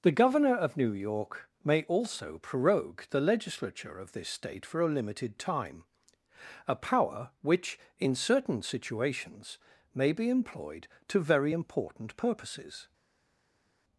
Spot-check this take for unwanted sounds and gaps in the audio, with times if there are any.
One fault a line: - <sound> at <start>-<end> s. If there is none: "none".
none